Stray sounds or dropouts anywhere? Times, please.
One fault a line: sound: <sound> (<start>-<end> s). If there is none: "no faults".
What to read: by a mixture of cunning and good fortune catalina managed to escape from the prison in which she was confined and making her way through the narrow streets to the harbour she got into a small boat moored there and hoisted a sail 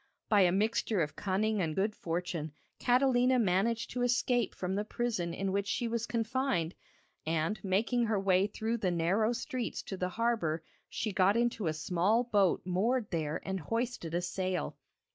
no faults